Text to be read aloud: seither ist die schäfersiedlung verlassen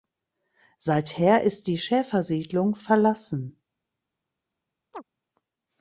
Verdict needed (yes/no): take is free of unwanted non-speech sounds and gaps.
no